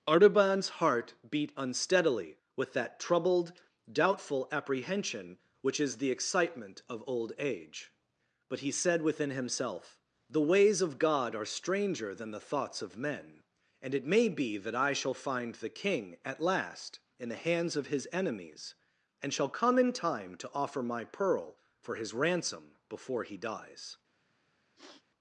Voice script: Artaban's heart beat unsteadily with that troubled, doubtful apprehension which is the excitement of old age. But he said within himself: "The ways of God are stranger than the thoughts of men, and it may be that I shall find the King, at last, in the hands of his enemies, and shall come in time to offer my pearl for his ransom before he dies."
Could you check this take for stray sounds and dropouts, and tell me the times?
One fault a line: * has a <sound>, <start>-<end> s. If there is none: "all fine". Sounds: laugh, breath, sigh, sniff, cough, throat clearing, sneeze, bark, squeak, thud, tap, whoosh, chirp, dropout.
* has a sniff, 24.7-25.0 s